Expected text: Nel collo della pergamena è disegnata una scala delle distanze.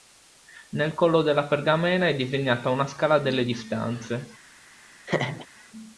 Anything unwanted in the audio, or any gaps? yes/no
yes